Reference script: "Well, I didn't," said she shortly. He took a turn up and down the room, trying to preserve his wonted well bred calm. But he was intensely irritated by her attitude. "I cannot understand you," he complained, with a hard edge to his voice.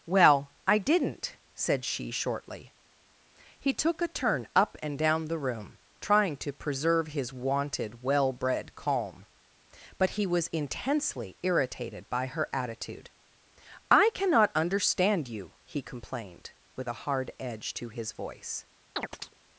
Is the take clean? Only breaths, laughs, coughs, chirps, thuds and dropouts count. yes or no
no